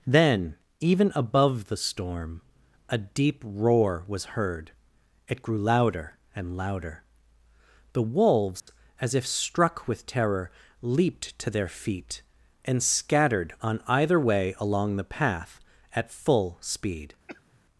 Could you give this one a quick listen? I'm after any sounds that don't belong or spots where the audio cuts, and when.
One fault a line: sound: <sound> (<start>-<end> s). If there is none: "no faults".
sound: dropout (8.6-8.7 s)
sound: cough (17.3-17.6 s)